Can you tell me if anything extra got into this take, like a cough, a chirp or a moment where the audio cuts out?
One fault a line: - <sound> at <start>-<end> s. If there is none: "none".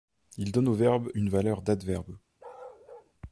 - bark at 2.4-3.1 s